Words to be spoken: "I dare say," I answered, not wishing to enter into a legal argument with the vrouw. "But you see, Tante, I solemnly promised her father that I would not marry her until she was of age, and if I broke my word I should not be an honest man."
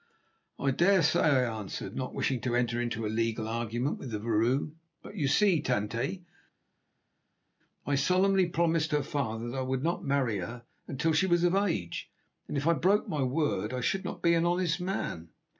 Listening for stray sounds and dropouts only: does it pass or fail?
pass